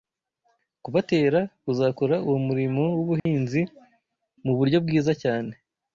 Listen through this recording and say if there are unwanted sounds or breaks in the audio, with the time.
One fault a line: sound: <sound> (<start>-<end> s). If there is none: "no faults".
sound: dropout (3.2-3.3 s)